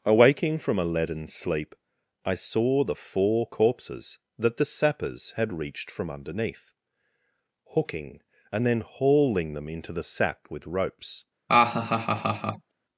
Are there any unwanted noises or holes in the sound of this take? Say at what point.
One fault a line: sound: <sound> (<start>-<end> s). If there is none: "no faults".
sound: laugh (11.5-12.7 s)